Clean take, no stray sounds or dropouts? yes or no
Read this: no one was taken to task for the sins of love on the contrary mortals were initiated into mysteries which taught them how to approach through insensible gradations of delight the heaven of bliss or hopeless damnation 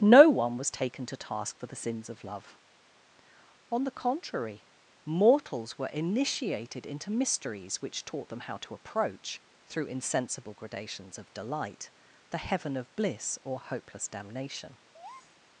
no